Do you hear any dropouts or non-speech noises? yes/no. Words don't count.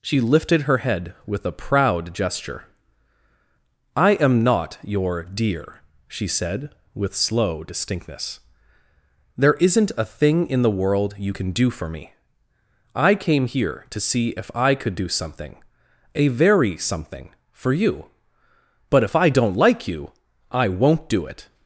no